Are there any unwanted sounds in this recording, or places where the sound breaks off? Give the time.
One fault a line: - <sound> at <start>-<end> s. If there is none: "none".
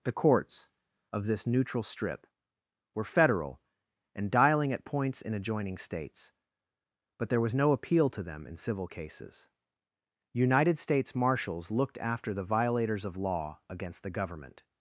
none